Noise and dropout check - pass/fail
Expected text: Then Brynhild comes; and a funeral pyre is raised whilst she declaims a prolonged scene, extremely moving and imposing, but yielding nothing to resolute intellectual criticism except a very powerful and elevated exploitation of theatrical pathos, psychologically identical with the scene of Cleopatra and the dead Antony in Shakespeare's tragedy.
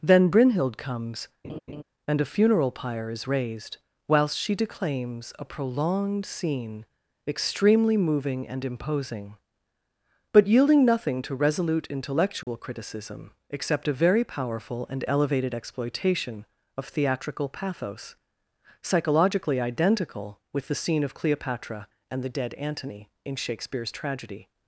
fail